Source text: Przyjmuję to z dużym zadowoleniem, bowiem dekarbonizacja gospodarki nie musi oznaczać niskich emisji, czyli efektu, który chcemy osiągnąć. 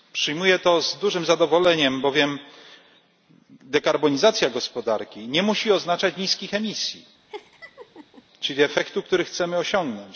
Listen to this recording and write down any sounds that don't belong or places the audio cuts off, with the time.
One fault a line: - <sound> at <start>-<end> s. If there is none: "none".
- laugh at 7.3-8.2 s